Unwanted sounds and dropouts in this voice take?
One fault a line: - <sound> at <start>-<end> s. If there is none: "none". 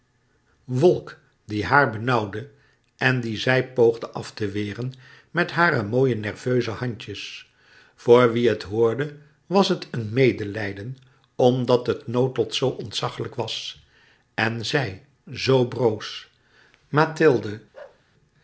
- bark at 17.7-18.0 s